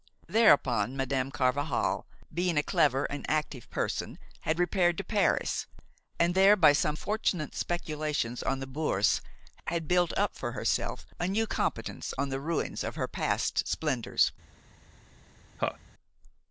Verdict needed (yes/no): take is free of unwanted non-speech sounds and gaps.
no